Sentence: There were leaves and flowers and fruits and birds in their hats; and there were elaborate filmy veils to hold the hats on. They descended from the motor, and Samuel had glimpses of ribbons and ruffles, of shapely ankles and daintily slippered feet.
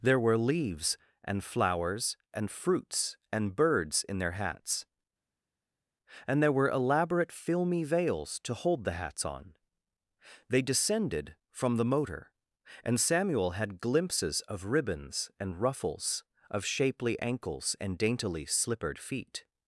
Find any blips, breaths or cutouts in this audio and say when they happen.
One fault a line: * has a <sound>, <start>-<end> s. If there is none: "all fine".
all fine